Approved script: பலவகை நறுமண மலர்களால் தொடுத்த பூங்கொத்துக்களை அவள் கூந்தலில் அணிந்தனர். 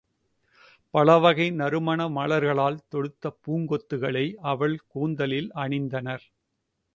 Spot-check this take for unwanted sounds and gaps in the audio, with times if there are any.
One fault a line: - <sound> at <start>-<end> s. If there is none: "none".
none